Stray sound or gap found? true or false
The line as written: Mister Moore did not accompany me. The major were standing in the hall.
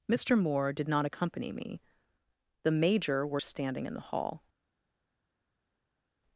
false